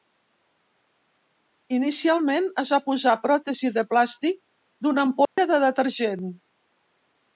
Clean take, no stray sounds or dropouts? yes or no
no